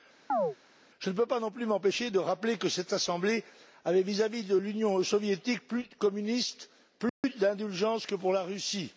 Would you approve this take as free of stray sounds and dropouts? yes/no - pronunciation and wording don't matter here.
no